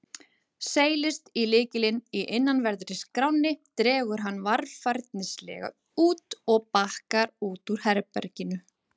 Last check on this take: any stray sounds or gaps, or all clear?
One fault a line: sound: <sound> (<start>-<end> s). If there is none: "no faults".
no faults